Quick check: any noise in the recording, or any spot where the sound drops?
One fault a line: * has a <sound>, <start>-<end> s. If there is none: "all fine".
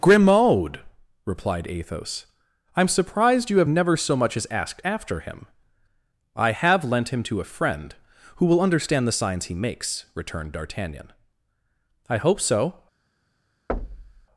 * has a thud, 13.7-14.3 s